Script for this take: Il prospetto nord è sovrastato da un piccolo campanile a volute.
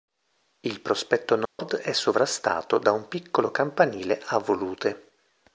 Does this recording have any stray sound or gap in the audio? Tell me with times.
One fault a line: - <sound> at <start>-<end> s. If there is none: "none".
- dropout at 1.5-1.6 s